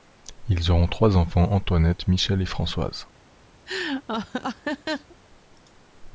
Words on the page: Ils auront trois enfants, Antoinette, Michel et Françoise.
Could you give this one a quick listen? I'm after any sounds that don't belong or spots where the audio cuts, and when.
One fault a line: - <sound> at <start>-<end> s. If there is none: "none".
- laugh at 3.7-5.2 s